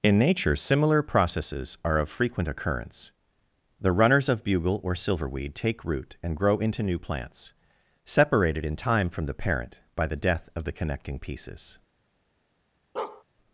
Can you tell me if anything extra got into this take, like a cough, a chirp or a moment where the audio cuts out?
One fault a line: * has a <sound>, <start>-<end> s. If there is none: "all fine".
* has a bark, 13.0-13.2 s